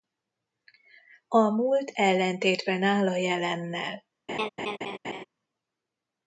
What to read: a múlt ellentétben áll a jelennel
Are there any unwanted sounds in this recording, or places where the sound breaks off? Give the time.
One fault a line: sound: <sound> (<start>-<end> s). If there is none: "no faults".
sound: laugh (4.3-5.2 s)